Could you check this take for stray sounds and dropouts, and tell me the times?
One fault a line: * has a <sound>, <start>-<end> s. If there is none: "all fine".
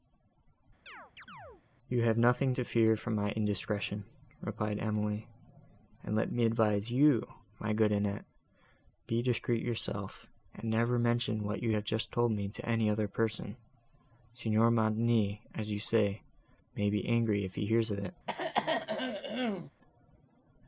* has a chirp, 0.9-1.6 s
* has a throat clearing, 18.3-19.7 s